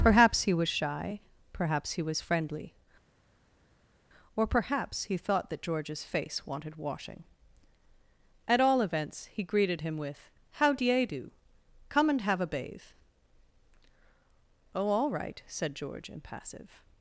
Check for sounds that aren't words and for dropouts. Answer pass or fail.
pass